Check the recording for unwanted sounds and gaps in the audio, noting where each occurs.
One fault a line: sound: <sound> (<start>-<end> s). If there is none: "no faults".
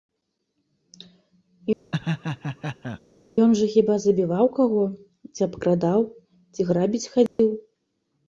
sound: laugh (1.9-3.0 s)
sound: dropout (7.3-7.4 s)